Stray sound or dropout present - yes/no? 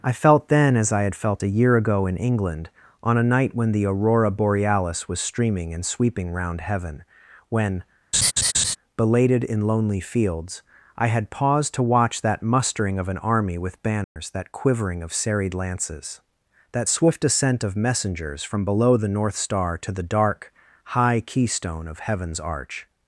yes